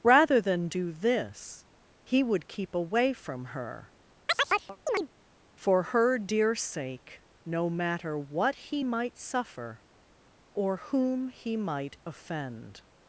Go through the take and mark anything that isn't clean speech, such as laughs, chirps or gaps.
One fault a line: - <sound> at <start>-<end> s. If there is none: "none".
- chirp at 4.3-5.1 s